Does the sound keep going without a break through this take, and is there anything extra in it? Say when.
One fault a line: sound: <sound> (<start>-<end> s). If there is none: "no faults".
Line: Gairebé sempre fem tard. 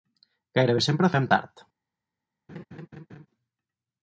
sound: laugh (2.5-3.3 s)